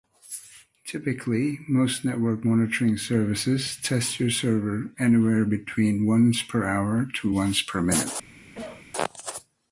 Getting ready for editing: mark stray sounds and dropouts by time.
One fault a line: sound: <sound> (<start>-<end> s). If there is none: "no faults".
sound: cough (8.5-8.9 s)